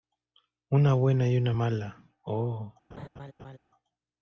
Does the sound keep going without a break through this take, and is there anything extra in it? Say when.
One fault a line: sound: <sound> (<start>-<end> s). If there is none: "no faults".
sound: laugh (2.9-3.6 s)